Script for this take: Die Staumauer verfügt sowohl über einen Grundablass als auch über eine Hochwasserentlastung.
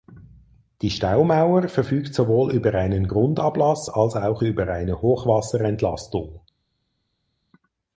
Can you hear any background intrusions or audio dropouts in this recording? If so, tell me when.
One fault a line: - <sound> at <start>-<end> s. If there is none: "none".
none